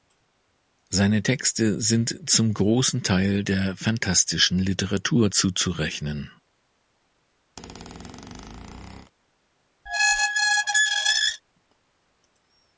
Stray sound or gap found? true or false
true